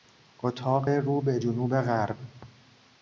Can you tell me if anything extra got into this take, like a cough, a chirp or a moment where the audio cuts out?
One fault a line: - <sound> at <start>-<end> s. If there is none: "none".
none